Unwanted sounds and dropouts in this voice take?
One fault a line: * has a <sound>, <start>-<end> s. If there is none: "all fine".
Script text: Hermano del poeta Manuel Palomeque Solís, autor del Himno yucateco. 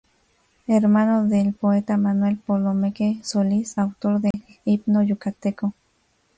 * has a dropout, 4.3-4.3 s